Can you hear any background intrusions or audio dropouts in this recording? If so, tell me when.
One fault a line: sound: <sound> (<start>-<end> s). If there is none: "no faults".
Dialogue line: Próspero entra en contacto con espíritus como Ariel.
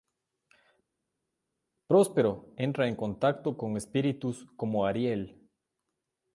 no faults